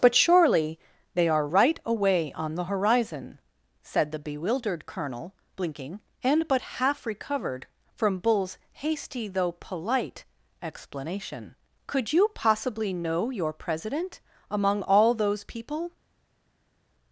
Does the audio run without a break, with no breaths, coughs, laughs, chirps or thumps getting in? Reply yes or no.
yes